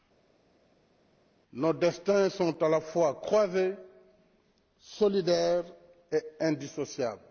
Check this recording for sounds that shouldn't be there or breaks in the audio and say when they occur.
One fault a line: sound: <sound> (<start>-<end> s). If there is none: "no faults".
no faults